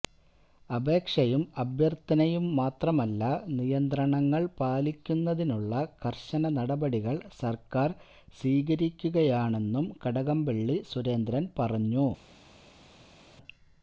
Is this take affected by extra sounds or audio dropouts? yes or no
no